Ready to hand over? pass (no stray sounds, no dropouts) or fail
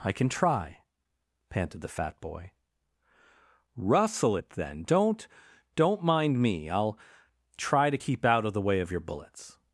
pass